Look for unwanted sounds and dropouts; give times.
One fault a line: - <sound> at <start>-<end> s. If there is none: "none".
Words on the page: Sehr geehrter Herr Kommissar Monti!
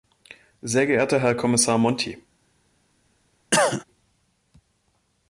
- cough at 3.5-3.8 s